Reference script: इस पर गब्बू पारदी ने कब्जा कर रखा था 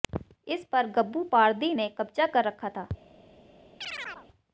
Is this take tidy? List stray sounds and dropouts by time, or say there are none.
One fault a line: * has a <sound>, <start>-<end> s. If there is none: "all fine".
* has a chirp, 3.8-4.3 s